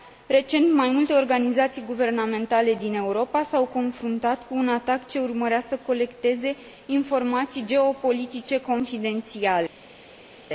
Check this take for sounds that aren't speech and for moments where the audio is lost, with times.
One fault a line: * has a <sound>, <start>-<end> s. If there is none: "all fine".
all fine